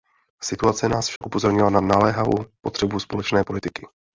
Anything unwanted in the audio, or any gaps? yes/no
yes